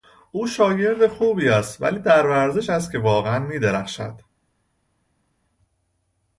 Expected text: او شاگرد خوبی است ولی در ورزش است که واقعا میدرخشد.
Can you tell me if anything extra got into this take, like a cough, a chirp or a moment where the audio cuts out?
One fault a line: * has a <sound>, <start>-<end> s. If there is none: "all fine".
all fine